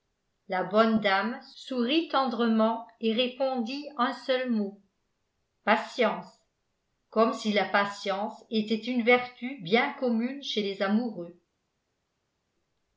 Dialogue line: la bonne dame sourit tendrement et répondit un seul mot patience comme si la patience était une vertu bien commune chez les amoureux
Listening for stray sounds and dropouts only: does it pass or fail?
pass